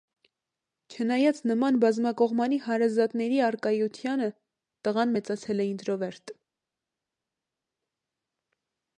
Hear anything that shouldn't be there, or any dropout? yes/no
no